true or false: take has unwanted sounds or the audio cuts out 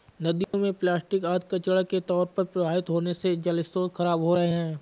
true